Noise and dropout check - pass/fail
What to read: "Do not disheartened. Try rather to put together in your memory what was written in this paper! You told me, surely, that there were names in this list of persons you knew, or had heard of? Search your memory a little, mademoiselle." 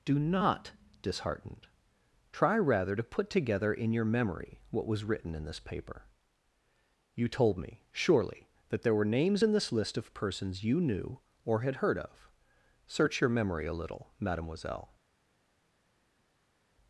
pass